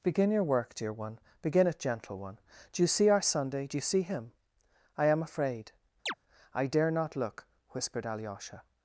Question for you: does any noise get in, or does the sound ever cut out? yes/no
yes